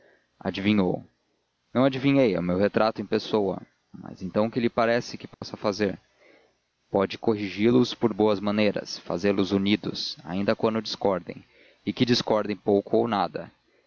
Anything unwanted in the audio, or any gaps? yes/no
yes